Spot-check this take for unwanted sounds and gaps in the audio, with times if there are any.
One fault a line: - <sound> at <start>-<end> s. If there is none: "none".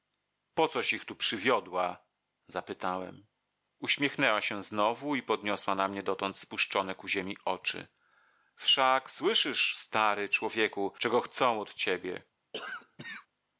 - cough at 12.5-13.3 s